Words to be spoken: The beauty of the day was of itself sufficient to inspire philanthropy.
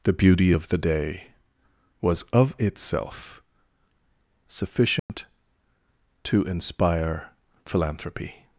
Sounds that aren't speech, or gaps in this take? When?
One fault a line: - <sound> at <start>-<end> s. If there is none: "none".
- dropout at 5.0-5.1 s